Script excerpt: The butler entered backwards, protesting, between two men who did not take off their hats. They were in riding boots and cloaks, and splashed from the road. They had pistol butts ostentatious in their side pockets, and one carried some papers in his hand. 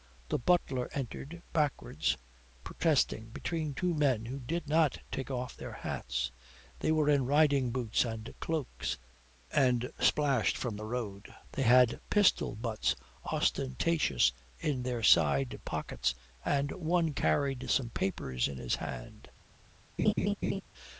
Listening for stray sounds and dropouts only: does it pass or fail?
fail